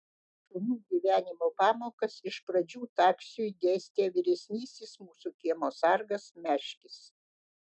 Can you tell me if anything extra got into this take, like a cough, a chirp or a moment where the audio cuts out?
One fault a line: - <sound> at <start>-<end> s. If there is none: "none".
none